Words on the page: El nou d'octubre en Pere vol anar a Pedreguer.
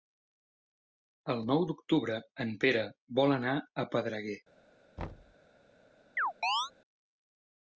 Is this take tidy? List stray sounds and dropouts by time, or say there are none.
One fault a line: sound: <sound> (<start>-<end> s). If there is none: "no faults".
sound: thud (5.0-5.4 s)
sound: chirp (6.2-6.7 s)